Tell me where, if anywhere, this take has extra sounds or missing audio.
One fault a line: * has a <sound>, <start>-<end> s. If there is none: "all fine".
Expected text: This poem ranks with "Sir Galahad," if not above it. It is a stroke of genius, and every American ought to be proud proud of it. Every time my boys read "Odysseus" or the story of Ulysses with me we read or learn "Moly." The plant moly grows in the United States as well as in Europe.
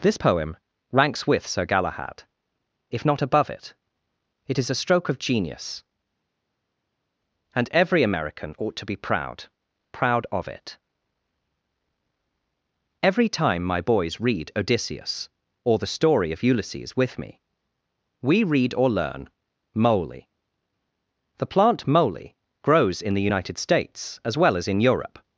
all fine